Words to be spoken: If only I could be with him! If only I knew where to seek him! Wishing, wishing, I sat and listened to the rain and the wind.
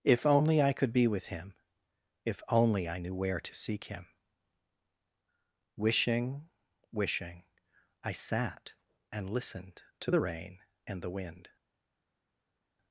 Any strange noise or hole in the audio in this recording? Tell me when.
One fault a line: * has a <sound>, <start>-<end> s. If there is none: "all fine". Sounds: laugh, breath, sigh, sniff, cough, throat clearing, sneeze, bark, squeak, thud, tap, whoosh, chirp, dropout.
all fine